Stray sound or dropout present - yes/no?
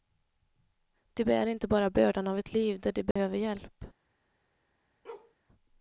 yes